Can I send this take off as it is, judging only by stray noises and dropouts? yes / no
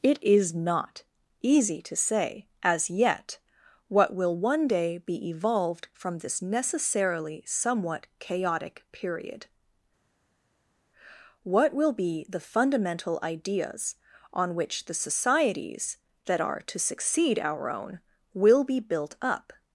yes